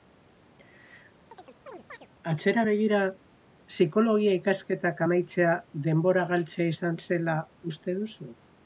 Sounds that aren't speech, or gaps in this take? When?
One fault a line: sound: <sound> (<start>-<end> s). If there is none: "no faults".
sound: chirp (1.3-2.1 s)